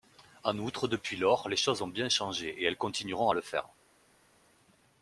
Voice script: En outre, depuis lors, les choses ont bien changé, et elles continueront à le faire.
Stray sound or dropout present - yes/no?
no